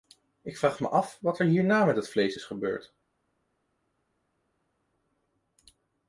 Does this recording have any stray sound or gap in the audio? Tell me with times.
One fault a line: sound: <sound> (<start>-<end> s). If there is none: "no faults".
no faults